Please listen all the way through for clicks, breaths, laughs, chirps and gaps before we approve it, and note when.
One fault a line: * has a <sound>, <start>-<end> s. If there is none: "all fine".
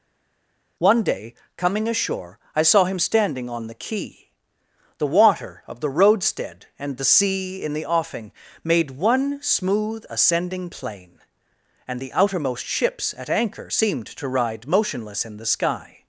all fine